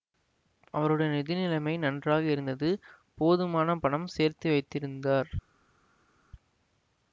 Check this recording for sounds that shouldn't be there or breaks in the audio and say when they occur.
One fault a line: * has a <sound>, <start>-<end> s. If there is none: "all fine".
all fine